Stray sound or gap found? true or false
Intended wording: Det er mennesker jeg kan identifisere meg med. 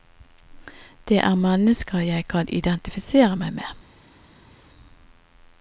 false